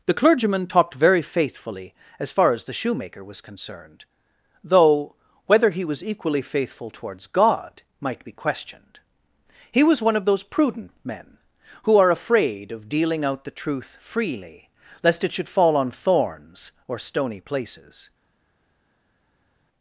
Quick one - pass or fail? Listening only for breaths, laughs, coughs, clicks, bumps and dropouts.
pass